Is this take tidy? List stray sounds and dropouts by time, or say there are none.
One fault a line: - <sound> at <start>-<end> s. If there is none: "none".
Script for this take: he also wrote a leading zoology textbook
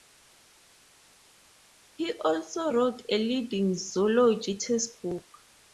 none